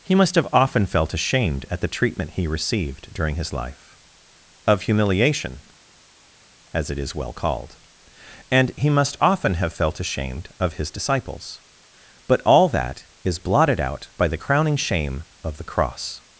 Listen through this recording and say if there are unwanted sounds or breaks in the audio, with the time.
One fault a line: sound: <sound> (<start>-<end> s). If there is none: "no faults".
no faults